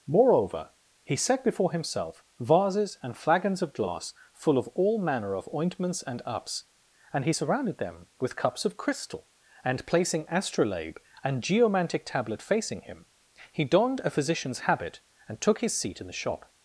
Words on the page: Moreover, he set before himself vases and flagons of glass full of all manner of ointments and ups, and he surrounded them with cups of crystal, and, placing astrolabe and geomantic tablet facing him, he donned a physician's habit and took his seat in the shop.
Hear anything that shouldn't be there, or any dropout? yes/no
no